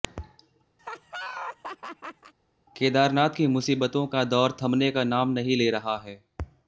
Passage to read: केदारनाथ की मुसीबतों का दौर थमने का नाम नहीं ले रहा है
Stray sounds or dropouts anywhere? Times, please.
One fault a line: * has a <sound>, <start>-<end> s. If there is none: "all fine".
* has a laugh, 0.8-2.3 s